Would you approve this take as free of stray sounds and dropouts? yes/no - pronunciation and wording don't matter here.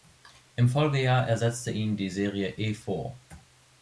yes